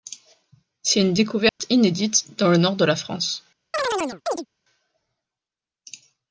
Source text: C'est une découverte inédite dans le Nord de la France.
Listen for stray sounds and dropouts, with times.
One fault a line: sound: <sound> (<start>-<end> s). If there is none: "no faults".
sound: dropout (1.5-1.6 s)
sound: chirp (3.7-4.5 s)